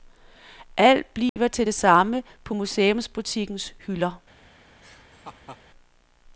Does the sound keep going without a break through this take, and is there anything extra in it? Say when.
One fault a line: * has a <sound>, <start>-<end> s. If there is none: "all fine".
* has a dropout, 1.3-1.4 s
* has a laugh, 4.8-5.6 s